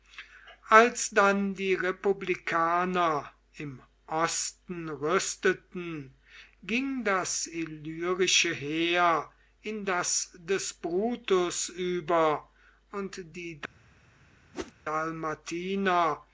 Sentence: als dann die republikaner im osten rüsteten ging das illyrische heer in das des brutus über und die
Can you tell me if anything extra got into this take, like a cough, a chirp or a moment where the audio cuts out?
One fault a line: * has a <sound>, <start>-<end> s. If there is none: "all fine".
* has a whoosh, 14.5-14.7 s